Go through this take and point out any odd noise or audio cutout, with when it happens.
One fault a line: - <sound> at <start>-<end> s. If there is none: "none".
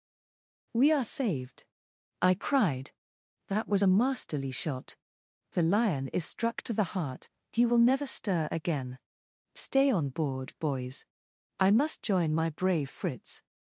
none